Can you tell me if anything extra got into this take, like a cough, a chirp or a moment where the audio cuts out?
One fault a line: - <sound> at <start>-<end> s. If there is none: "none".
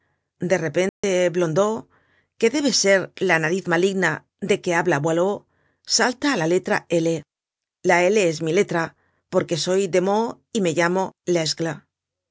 - dropout at 0.9-1.0 s